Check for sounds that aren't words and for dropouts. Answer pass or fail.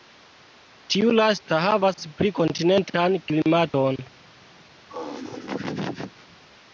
fail